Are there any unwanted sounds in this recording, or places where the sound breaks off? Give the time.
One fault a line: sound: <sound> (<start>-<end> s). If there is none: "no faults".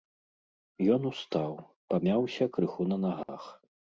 sound: dropout (3.2-3.3 s)